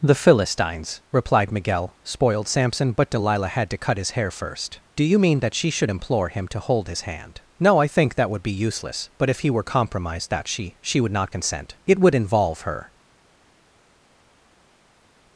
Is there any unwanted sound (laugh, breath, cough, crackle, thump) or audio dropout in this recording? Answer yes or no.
no